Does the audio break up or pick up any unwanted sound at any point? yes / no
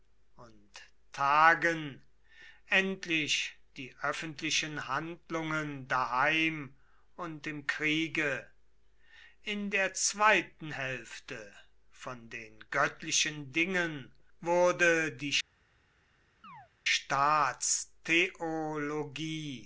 yes